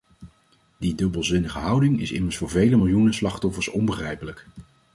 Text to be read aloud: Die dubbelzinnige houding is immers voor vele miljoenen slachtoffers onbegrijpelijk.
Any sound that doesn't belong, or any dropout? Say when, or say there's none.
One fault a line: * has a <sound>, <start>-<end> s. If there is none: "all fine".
all fine